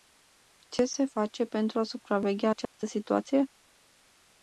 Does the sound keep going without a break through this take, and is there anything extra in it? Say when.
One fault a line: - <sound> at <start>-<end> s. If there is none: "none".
- dropout at 2.6-2.7 s